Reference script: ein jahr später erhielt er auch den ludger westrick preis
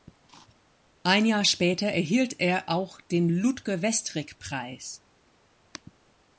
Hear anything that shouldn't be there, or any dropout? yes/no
no